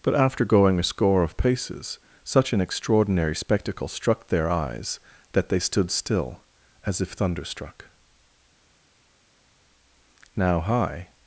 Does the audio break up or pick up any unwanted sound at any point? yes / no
no